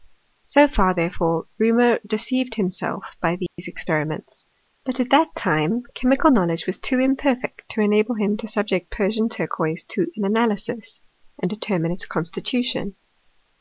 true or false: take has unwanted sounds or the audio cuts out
true